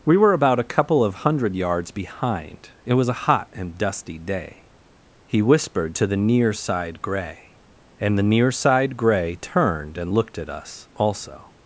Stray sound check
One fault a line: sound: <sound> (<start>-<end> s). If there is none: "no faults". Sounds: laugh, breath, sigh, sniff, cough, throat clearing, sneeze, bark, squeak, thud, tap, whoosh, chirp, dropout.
no faults